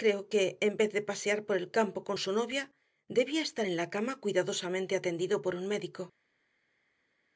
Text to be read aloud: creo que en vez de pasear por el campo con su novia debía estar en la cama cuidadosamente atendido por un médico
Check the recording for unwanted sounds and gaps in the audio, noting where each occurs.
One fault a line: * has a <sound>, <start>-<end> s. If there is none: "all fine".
all fine